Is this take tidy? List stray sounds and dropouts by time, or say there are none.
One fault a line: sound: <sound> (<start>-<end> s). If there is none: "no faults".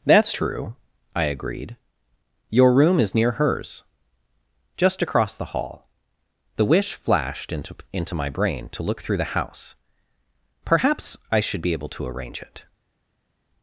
no faults